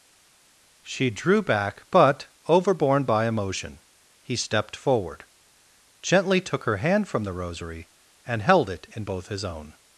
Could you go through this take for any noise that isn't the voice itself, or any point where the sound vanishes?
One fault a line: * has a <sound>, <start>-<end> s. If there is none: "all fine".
all fine